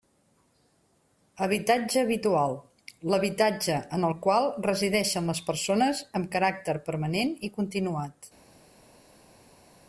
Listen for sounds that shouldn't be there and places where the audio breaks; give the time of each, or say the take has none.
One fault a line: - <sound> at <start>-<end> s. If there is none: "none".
none